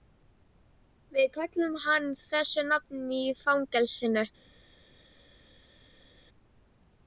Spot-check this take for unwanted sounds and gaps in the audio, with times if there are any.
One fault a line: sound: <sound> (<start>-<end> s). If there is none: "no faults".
no faults